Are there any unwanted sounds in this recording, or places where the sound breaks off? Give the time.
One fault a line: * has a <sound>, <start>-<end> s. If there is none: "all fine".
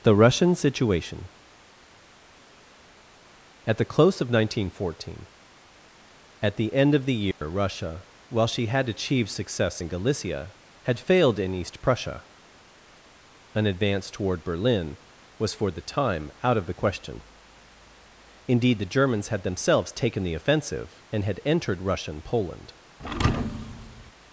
* has a dropout, 7.3-7.4 s
* has a thud, 23.0-24.1 s